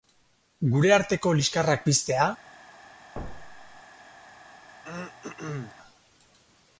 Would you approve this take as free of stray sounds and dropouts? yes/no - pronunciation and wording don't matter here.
no